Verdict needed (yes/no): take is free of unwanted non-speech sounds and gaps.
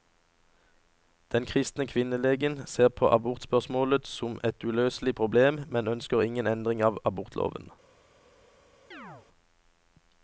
no